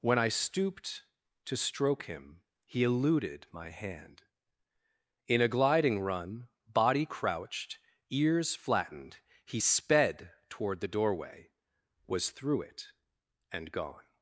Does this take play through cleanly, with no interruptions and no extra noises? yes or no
yes